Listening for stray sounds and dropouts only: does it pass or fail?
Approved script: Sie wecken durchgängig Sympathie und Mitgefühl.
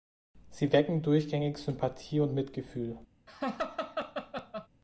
fail